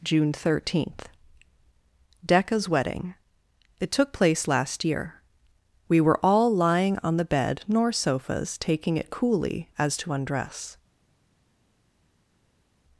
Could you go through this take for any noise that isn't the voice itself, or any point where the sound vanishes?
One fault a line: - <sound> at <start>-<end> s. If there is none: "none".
none